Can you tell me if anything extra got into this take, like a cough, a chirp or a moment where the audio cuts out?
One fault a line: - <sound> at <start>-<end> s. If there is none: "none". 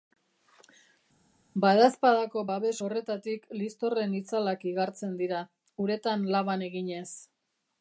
none